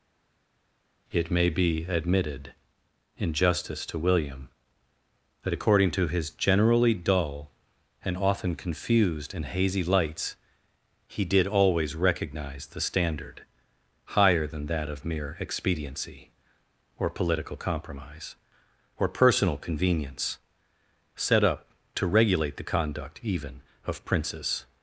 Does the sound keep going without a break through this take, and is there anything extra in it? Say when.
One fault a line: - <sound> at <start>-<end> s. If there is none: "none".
none